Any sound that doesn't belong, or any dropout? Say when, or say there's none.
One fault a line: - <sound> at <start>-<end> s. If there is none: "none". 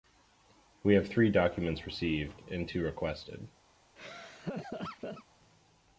- laugh at 4.0-5.3 s